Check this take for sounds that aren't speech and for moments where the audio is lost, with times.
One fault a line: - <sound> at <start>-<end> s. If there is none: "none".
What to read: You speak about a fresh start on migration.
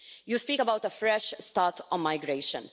none